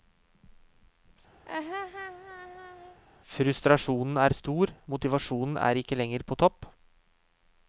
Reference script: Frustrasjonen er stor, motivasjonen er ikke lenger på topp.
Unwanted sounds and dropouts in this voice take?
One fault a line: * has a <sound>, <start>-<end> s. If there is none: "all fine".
* has a laugh, 1.5-3.0 s